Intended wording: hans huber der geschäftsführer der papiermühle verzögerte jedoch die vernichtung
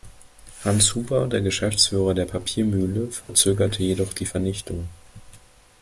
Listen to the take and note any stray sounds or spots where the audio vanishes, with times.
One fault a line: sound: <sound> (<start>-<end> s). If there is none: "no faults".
sound: dropout (3.2-3.3 s)